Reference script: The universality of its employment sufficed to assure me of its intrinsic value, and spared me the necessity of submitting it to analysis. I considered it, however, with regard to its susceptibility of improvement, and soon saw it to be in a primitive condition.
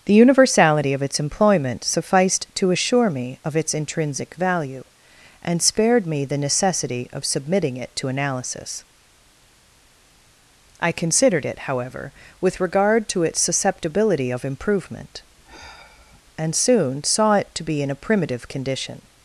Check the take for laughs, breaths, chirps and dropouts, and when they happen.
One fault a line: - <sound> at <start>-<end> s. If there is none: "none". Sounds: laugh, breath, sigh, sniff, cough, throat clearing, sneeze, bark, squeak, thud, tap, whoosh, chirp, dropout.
- sigh at 15.4-16.2 s